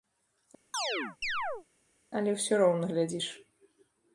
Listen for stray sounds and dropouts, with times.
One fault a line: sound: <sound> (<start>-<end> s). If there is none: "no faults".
sound: chirp (0.7-1.7 s)